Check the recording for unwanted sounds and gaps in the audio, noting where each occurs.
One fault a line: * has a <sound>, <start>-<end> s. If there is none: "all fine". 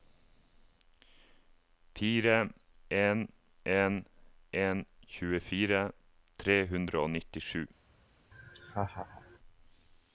* has a laugh, 8.3-9.4 s